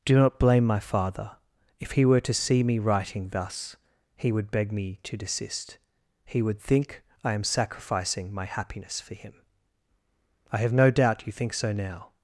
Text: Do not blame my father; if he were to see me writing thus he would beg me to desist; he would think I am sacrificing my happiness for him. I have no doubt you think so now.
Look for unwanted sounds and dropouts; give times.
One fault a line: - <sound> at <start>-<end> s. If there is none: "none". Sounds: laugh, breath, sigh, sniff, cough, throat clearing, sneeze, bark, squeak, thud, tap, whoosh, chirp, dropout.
none